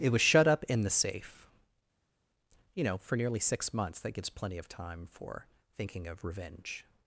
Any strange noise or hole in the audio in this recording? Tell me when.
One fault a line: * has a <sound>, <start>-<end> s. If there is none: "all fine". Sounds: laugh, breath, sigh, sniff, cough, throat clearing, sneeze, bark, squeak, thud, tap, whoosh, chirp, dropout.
all fine